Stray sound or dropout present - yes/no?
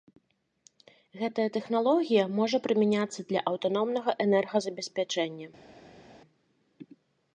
no